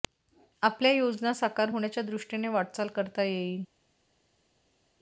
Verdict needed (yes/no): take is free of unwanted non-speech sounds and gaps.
yes